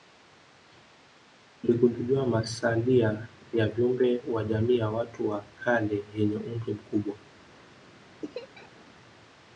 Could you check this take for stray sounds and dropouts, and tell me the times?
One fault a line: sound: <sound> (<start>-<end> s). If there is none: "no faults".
sound: laugh (8.2-8.8 s)